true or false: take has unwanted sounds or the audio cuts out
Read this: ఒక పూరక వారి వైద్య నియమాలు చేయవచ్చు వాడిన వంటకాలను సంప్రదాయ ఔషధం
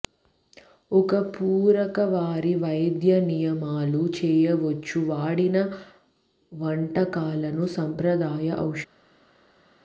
false